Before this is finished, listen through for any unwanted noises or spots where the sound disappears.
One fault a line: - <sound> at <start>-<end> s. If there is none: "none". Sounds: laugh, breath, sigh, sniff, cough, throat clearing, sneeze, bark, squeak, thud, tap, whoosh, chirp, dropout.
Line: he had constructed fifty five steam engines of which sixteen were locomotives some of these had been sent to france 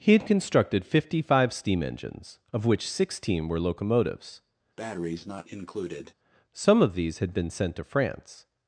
- breath at 4.8-6.1 s